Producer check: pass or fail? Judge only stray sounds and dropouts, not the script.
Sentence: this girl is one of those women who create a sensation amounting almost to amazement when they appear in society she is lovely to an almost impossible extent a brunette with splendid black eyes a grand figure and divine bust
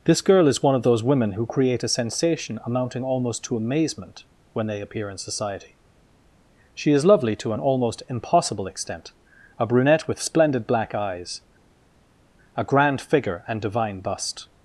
pass